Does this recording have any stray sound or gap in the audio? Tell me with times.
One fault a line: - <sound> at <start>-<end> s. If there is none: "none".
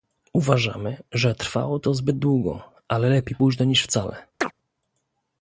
- chirp at 4.4-4.5 s